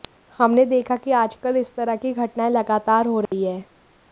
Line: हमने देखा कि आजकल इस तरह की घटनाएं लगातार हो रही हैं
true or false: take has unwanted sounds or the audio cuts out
true